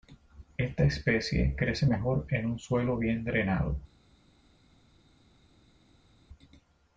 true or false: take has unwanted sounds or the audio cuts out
false